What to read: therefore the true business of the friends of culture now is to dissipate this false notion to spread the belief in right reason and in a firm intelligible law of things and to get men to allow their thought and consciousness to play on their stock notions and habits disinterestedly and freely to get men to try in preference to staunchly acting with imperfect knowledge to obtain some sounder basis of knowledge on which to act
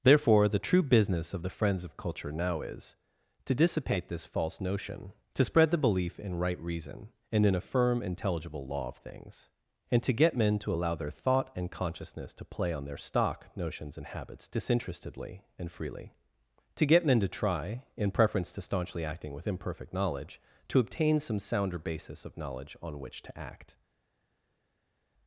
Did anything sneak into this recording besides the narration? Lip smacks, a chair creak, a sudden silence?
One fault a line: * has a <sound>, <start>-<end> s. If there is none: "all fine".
all fine